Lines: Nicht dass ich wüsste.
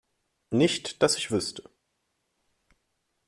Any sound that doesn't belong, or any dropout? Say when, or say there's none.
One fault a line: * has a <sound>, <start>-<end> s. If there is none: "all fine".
all fine